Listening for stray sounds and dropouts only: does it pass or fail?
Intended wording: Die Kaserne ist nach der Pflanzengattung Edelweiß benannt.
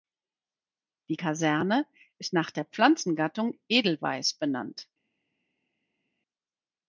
pass